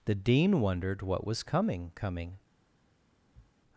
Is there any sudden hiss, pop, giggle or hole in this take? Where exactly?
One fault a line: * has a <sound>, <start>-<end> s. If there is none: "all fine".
* has a sniff, 3.3-3.5 s